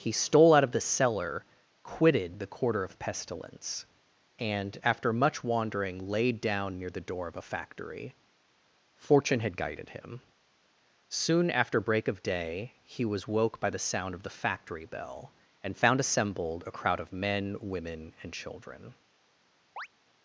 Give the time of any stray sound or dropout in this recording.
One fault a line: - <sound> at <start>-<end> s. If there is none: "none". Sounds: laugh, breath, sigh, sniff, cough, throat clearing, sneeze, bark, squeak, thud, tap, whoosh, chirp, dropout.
- chirp at 19.8-19.9 s